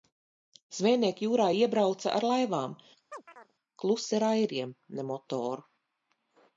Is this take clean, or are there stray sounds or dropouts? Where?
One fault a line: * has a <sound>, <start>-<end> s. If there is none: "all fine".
* has a chirp, 3.1-3.5 s